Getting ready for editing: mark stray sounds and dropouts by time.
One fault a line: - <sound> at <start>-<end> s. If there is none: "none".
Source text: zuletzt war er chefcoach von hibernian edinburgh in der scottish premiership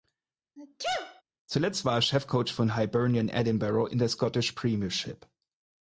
- sneeze at 0.6-1.2 s